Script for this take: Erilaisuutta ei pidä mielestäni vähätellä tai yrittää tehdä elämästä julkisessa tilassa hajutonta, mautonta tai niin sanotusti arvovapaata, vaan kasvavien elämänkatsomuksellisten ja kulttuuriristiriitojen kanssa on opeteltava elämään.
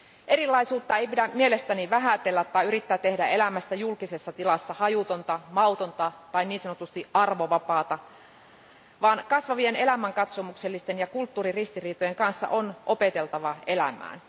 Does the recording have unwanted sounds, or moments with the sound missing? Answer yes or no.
no